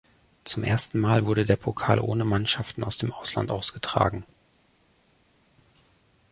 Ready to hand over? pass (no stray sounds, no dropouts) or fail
pass